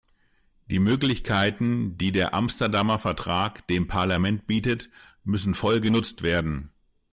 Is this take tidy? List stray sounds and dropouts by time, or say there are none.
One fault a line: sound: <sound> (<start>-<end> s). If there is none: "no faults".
no faults